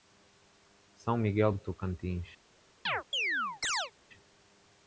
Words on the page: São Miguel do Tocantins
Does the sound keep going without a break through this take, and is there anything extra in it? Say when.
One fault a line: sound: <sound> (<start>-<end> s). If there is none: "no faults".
sound: chirp (2.9-3.9 s)